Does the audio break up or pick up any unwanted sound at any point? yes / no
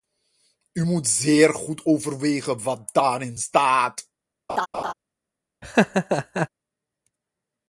yes